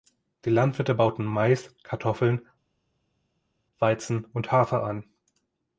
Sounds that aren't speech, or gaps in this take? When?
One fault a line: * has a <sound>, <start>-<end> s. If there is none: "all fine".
all fine